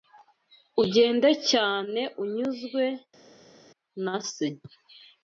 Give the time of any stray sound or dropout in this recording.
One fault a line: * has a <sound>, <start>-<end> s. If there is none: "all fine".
all fine